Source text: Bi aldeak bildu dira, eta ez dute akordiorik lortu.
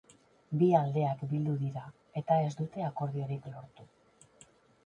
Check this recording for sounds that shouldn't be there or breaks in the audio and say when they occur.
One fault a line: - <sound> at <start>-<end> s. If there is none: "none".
none